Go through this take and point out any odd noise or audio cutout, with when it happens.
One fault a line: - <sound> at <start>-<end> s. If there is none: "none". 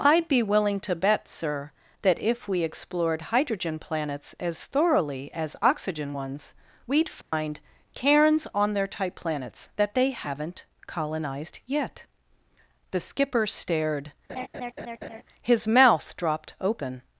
- dropout at 7.2-7.3 s
- laugh at 14.3-15.2 s